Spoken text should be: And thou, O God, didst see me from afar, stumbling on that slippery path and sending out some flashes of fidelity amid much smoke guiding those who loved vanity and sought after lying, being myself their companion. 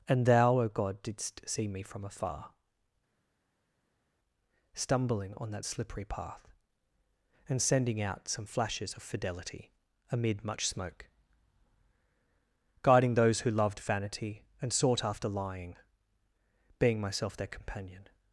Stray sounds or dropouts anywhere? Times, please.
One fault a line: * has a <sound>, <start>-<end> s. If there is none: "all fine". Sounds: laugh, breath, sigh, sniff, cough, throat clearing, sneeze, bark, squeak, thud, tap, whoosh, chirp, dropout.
all fine